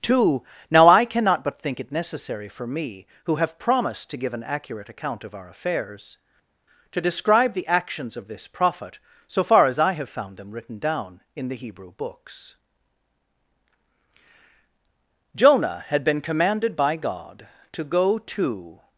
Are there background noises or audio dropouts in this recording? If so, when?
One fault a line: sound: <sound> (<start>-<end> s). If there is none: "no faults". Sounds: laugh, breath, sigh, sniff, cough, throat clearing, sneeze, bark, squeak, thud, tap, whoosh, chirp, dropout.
no faults